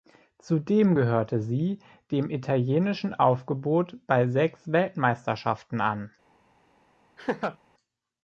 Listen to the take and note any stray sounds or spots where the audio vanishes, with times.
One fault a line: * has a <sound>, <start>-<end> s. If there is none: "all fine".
* has a laugh, 7.2-7.6 s